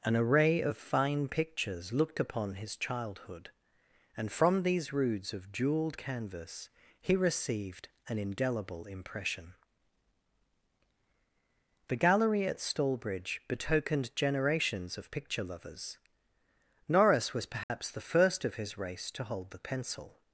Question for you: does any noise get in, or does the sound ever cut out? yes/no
yes